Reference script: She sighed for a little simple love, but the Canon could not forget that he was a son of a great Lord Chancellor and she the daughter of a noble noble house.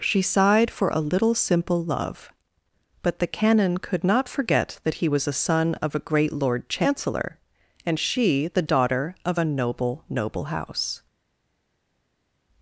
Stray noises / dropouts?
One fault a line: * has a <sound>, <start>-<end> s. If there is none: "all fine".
all fine